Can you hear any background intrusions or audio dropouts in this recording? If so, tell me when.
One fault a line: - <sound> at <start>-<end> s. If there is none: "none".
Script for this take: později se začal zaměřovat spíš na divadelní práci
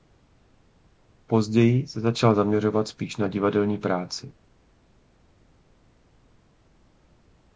none